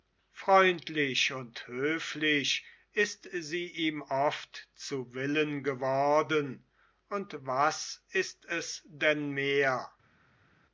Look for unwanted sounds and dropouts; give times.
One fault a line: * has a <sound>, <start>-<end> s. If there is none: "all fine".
all fine